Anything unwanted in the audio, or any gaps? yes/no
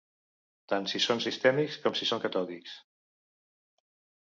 no